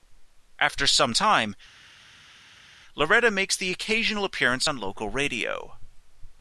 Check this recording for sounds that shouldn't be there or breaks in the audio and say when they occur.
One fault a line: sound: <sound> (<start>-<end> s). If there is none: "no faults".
no faults